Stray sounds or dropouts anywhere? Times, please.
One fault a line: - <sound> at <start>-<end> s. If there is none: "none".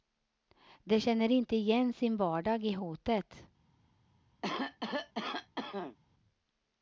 - cough at 4.4-6.0 s